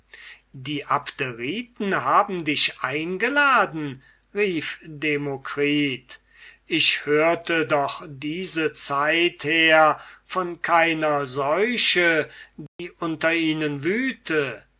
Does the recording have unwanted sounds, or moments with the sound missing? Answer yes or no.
yes